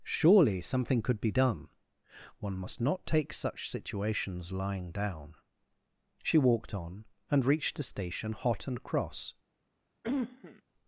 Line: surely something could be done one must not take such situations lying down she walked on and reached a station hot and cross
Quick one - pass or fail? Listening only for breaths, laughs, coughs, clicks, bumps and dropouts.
fail